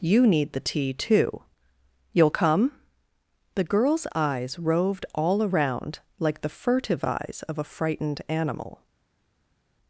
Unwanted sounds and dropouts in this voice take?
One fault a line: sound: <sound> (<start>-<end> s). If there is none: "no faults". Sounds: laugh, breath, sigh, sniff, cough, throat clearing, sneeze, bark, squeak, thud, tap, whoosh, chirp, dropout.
no faults